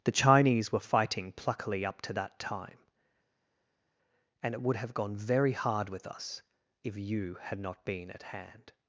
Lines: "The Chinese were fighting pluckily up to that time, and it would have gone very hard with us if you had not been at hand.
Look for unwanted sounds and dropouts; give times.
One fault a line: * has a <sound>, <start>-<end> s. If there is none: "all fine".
all fine